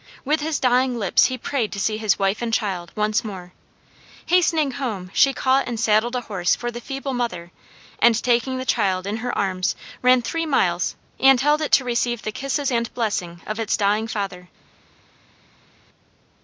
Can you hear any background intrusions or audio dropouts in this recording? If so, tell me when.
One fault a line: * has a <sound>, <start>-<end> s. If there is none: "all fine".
all fine